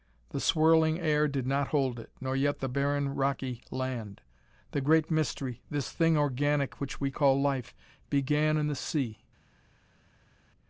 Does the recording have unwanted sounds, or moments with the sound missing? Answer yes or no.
no